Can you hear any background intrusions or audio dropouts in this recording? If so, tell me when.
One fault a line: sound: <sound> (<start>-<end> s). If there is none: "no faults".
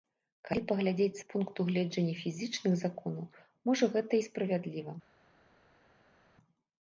no faults